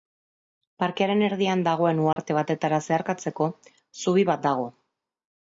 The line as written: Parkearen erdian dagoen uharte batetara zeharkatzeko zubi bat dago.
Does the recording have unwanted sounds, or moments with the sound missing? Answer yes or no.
yes